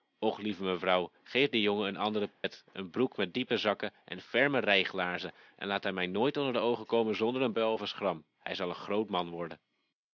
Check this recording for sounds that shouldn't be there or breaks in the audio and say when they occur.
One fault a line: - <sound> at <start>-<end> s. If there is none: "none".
- dropout at 2.3-2.4 s